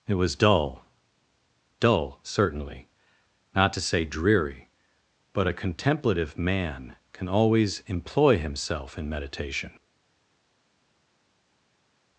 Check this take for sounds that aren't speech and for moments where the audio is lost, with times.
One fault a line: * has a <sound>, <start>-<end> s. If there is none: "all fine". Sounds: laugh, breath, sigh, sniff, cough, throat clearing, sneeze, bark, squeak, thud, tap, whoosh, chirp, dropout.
all fine